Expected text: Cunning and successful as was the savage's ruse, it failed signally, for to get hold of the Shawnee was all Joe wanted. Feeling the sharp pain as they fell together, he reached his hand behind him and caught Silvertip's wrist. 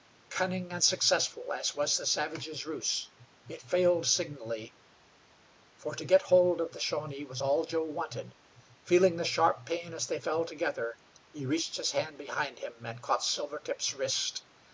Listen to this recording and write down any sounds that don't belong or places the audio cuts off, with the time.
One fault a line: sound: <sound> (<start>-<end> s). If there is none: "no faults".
no faults